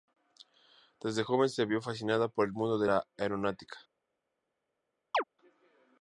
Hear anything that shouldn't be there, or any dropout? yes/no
yes